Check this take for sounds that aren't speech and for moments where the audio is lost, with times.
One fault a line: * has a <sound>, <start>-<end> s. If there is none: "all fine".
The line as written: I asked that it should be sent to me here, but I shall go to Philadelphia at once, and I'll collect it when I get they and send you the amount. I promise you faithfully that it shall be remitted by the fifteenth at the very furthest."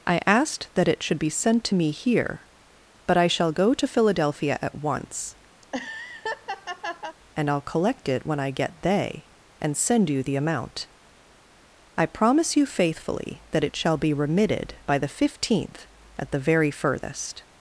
* has a laugh, 5.6-7.2 s